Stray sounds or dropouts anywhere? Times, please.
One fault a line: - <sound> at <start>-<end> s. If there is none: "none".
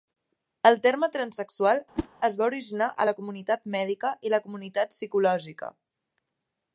- whoosh at 2.0-2.1 s